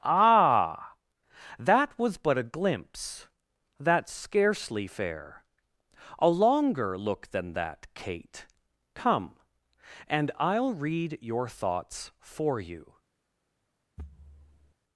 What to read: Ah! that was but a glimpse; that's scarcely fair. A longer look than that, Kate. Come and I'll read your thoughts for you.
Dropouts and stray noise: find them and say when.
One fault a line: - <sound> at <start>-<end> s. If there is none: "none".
- thud at 14.0-14.7 s